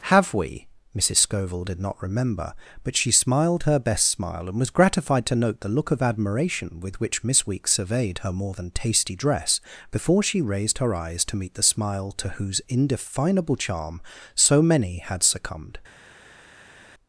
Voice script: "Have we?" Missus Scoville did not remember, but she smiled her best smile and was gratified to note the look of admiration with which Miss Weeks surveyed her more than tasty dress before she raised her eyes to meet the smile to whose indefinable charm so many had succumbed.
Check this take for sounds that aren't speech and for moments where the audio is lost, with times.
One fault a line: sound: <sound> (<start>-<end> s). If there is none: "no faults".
no faults